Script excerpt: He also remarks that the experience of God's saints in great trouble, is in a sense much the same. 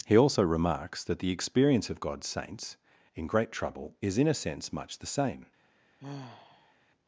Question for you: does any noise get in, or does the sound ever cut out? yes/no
yes